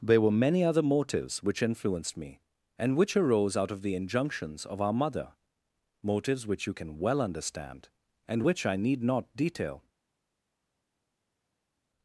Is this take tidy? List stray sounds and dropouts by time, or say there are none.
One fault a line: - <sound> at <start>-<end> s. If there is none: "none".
none